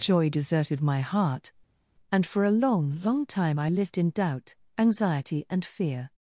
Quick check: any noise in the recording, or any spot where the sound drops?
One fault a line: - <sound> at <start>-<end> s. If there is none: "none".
none